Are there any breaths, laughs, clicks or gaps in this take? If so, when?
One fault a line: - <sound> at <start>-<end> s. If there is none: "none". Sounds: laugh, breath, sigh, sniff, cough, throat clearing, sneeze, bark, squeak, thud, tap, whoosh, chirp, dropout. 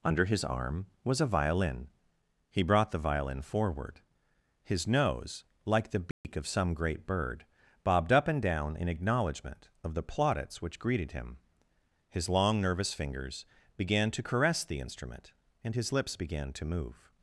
- dropout at 6.1-6.2 s